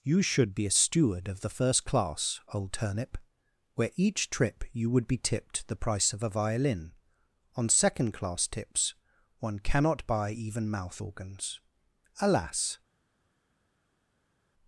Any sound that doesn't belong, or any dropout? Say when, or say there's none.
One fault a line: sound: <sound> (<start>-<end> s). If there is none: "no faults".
no faults